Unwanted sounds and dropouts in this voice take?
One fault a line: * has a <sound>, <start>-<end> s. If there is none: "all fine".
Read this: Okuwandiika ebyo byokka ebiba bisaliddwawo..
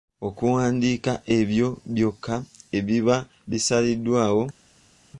all fine